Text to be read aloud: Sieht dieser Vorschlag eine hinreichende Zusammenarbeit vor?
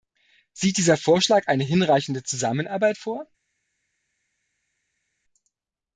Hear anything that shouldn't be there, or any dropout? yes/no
no